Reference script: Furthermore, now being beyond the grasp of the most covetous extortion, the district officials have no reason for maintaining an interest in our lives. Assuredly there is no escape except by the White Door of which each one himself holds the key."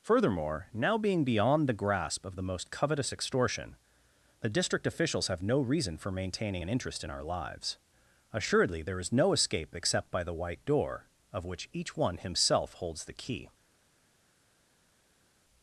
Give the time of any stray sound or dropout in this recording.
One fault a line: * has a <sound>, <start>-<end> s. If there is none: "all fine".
all fine